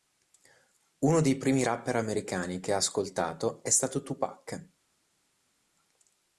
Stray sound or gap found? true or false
false